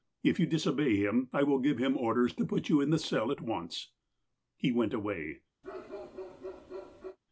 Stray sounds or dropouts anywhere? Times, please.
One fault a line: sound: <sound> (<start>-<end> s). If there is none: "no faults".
sound: bark (5.6-7.2 s)